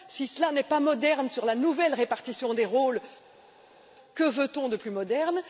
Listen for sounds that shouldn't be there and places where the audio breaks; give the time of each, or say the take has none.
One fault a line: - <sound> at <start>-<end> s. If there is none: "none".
none